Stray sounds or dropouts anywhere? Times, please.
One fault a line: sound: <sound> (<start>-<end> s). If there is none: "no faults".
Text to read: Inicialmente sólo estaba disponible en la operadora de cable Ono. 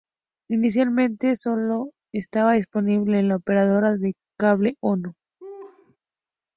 sound: laugh (5.4-6.0 s)